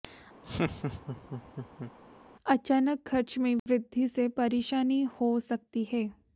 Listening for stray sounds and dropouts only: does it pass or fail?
fail